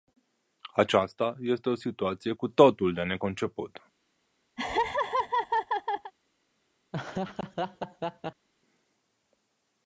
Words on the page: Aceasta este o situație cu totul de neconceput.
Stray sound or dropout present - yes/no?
yes